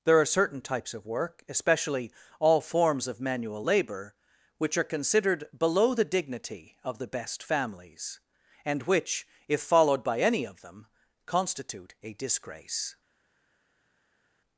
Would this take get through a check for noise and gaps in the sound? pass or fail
pass